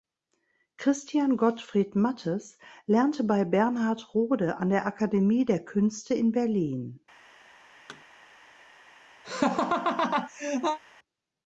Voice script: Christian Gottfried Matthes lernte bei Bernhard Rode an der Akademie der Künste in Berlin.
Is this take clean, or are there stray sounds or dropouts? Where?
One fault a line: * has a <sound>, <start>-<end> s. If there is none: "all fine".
* has a thud, 7.9-8.0 s
* has a laugh, 9.2-10.8 s